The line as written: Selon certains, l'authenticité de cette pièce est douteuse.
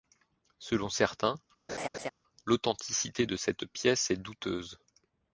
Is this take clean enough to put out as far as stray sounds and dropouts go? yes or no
no